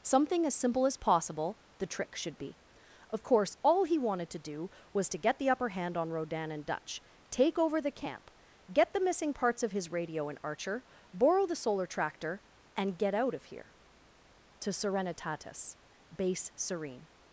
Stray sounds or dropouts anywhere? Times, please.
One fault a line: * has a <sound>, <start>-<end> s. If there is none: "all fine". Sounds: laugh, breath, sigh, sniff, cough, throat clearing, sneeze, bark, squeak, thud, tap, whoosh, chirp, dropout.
all fine